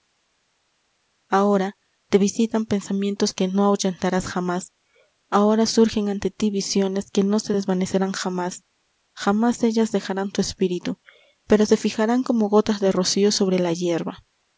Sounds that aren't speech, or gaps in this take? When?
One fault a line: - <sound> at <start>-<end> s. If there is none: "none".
none